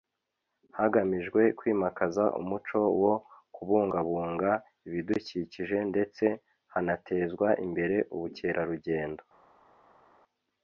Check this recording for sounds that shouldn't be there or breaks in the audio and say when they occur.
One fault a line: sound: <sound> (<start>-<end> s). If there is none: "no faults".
no faults